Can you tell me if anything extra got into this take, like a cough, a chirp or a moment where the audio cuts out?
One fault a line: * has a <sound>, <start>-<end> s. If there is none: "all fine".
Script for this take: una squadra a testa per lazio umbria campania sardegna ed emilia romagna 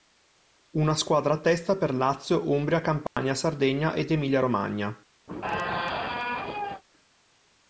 * has a dropout, 3.1-3.2 s
* has a squeak, 5.3-6.8 s